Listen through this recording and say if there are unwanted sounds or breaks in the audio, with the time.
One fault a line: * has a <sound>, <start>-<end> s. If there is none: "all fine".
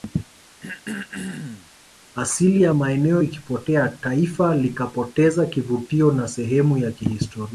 * has a throat clearing, 0.6-1.7 s